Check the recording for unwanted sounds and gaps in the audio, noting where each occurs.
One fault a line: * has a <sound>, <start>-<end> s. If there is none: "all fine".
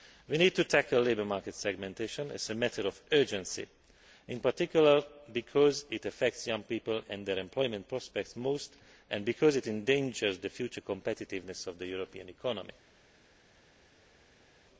all fine